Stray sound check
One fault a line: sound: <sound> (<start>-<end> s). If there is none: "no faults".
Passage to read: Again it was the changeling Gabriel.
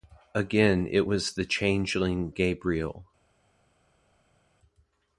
no faults